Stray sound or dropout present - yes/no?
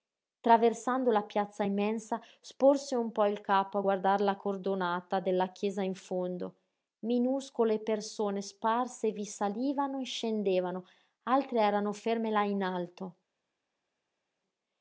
no